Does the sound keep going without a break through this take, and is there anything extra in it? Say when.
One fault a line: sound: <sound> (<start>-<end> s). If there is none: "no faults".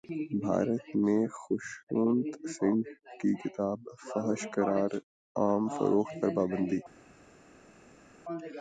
no faults